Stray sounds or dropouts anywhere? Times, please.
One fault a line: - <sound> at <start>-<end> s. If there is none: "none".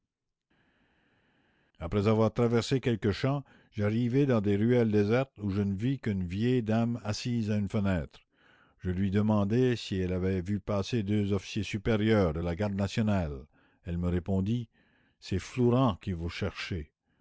none